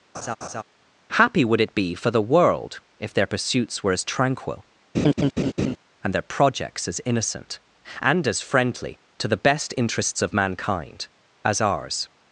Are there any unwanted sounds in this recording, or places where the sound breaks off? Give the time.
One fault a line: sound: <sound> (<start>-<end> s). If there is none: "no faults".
sound: laugh (0.1-0.6 s)
sound: laugh (4.9-5.8 s)